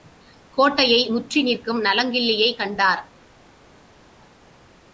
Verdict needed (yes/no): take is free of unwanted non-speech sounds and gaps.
yes